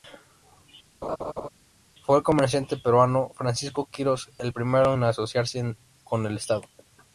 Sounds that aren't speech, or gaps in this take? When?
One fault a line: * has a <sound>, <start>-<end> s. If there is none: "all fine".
* has a laugh, 1.0-1.5 s